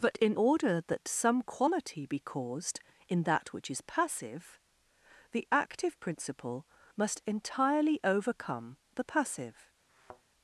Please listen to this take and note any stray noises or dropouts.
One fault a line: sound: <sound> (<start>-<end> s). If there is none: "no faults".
sound: thud (9.9-10.2 s)